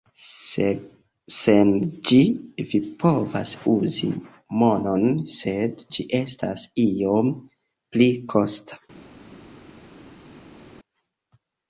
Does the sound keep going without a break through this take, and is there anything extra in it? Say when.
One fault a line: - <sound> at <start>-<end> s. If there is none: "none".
none